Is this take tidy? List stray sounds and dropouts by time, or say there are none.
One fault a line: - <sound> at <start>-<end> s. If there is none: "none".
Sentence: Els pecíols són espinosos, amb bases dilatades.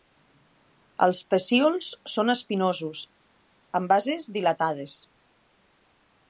none